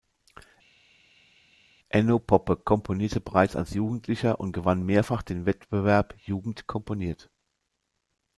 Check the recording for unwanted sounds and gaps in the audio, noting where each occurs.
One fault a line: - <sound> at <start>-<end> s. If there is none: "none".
none